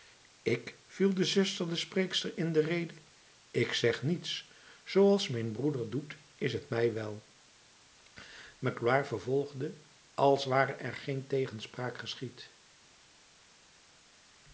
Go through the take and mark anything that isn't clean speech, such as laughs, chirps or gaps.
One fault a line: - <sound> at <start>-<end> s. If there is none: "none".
none